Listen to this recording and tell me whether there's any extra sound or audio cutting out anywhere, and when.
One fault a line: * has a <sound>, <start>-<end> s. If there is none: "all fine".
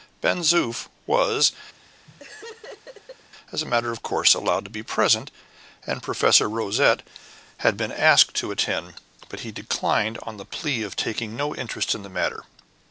* has a laugh, 1.7-3.3 s